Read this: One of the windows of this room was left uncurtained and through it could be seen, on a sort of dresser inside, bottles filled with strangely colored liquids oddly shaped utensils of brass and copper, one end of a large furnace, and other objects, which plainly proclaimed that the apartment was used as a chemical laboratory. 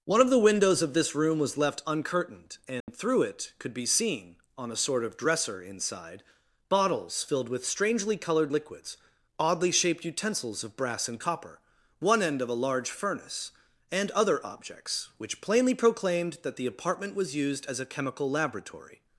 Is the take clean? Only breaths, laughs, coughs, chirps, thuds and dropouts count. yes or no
no